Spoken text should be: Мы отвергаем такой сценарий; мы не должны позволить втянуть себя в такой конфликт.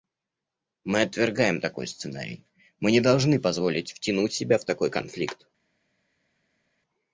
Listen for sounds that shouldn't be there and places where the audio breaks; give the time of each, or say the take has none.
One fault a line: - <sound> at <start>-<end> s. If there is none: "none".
none